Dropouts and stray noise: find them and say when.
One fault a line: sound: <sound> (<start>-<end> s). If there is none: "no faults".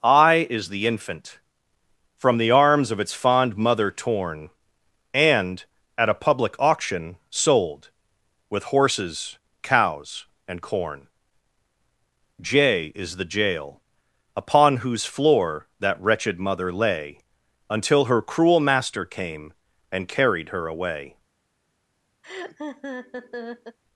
sound: laugh (22.2-23.8 s)